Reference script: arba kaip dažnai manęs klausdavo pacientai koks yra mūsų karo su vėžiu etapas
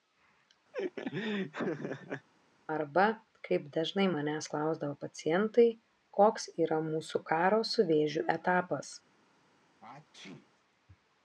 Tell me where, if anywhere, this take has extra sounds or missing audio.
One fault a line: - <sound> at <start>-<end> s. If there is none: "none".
- laugh at 0.7-2.3 s
- sneeze at 9.8-10.5 s